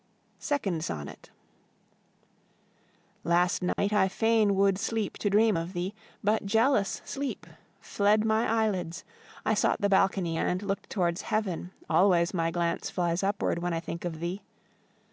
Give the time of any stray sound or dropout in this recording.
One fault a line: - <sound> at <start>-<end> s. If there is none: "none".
- dropout at 3.7-3.8 s